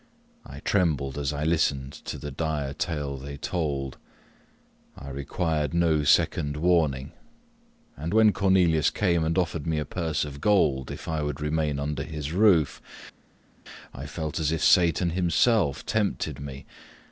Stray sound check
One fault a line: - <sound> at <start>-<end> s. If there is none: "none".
none